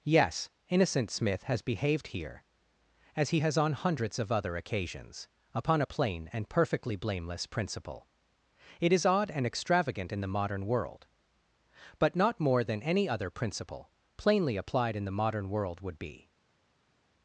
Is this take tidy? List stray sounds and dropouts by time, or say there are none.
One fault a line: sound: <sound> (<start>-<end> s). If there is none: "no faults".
no faults